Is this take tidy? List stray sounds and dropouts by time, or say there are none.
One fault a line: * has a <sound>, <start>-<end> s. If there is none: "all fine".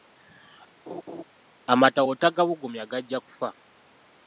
* has a laugh, 0.9-1.2 s